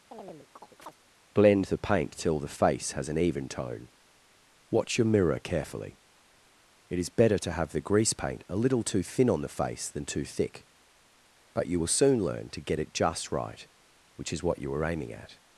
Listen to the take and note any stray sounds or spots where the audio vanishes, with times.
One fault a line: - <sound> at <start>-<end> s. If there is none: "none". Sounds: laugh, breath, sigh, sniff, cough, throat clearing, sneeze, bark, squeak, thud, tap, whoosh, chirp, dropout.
- chirp at 0.1-1.0 s